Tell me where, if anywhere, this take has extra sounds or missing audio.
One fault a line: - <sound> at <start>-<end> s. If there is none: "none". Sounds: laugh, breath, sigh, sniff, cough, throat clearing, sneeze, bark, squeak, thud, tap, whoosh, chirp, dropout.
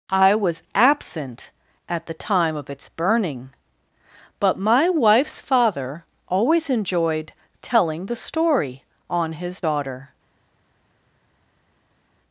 none